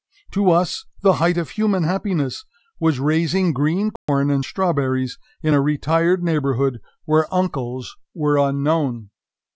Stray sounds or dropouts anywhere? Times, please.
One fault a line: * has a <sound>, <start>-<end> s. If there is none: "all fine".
* has a dropout, 4.0-4.1 s